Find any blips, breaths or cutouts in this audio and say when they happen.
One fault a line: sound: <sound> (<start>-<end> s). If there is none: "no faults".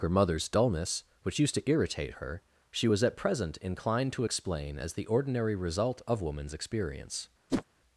sound: whoosh (7.5-7.6 s)